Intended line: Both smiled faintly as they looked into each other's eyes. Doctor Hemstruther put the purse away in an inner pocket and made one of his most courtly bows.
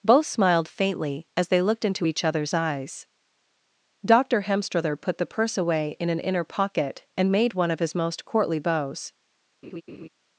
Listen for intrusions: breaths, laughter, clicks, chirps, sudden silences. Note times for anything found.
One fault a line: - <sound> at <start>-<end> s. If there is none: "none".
- laugh at 9.6-10.1 s